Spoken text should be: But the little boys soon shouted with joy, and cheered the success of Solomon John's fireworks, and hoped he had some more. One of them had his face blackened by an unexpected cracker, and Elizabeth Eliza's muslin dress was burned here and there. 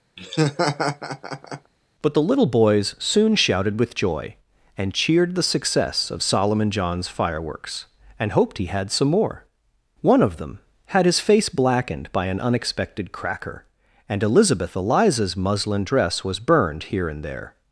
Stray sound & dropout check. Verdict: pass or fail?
fail